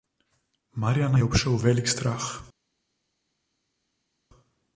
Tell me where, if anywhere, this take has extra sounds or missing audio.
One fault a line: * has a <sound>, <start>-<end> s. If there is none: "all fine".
all fine